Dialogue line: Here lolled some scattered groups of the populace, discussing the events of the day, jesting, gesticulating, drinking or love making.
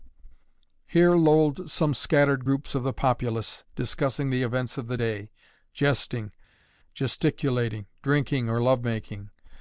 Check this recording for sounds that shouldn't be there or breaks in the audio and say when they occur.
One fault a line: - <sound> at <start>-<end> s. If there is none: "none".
none